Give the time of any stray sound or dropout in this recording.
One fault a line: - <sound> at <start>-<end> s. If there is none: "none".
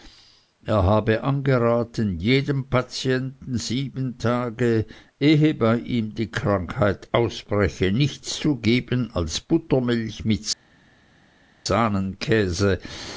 none